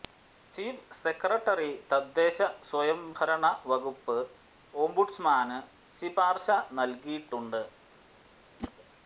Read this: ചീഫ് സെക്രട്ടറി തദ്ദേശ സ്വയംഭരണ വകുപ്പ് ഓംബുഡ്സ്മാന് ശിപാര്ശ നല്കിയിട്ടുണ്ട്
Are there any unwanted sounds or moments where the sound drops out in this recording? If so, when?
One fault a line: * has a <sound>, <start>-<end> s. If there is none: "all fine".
* has a whoosh, 8.6-8.7 s